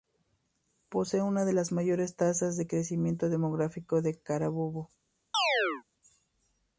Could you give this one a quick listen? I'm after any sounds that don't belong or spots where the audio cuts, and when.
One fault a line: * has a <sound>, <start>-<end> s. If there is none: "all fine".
* has a chirp, 5.3-5.8 s